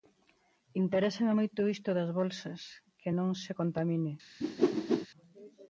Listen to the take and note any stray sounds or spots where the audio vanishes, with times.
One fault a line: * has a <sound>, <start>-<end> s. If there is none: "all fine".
* has a whoosh, 4.4-5.1 s